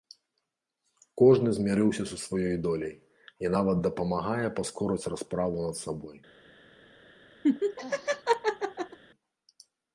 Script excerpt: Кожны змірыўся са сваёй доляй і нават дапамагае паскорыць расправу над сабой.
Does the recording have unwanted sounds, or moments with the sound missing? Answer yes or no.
yes